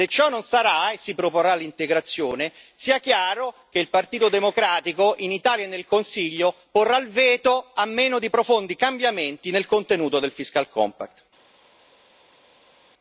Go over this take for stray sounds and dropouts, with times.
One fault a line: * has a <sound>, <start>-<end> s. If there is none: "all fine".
all fine